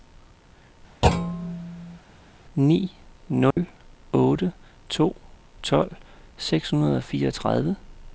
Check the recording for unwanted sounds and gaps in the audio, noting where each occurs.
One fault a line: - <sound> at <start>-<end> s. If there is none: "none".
- thud at 1.0-2.0 s
- dropout at 3.5-3.6 s